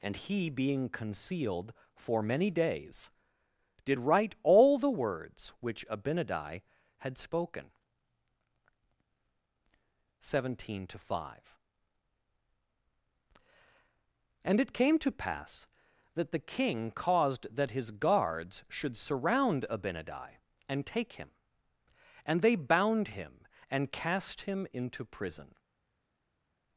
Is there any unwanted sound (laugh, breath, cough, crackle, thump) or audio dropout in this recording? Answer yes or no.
no